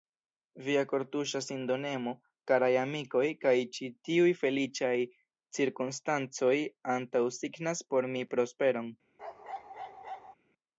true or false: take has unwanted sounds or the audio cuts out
true